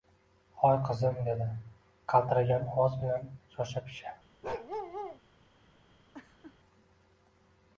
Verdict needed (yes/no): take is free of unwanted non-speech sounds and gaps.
no